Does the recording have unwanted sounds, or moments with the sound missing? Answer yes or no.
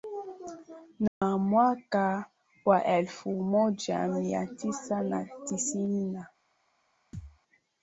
yes